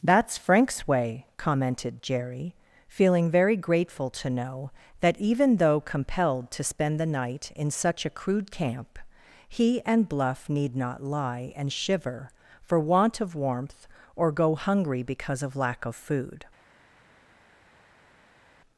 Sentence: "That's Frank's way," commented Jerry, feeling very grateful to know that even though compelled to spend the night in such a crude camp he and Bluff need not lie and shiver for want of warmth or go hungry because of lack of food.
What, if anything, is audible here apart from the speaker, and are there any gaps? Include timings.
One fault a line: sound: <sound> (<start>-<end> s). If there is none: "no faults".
no faults